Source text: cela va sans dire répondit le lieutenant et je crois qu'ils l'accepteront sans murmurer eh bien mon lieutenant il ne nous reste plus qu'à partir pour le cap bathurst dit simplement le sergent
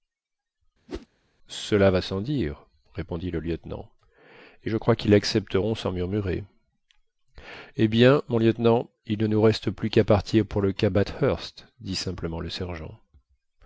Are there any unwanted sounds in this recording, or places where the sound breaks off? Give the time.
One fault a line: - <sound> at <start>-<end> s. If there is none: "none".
- whoosh at 0.9-1.1 s